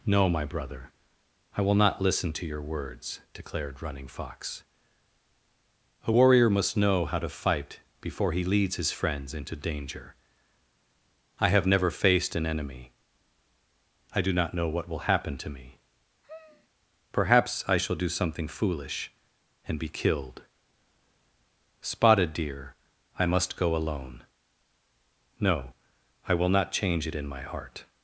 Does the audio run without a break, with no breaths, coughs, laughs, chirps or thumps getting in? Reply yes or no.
no